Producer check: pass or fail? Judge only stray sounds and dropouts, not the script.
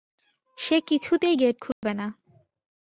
fail